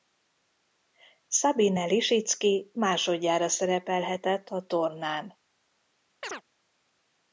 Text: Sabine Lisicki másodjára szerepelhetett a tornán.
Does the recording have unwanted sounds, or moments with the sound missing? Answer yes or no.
yes